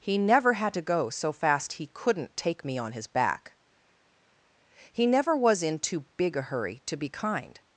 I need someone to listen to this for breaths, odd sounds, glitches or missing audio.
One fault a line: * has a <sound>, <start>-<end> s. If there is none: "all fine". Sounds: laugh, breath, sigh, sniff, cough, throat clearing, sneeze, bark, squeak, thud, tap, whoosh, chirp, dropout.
all fine